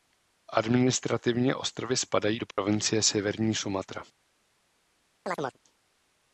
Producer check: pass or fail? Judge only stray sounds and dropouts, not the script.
fail